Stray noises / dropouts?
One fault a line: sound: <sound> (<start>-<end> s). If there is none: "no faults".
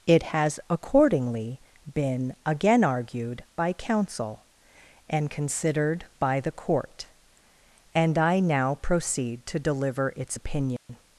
sound: dropout (10.8-10.9 s)